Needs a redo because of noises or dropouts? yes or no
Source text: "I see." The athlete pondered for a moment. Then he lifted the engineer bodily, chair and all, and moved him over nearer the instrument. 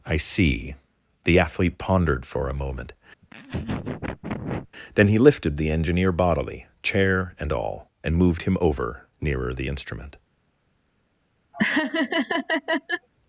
yes